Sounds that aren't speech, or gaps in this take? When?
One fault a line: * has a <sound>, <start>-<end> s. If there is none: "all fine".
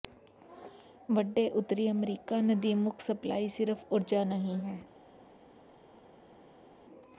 all fine